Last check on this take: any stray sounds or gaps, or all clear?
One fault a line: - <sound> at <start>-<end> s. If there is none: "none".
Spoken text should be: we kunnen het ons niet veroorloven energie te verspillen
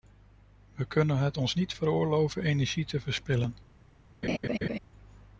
- laugh at 4.2-4.8 s